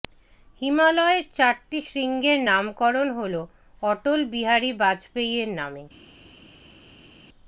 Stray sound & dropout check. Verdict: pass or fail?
pass